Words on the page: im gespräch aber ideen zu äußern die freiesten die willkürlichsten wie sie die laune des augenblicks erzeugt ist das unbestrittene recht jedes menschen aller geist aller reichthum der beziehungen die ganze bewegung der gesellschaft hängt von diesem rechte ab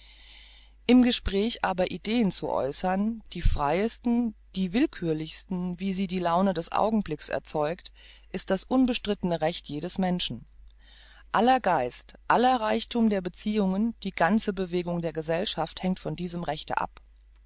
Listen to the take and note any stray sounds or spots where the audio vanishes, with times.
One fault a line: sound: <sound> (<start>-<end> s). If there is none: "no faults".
no faults